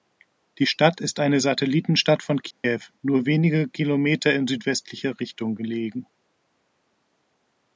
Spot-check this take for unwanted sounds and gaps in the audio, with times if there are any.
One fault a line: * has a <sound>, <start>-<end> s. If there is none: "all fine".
* has a dropout, 2.5-2.6 s